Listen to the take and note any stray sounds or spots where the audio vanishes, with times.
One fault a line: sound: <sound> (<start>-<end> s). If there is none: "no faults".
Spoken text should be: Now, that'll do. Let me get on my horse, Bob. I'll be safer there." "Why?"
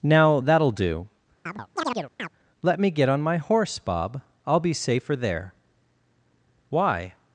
sound: chirp (1.5-2.3 s)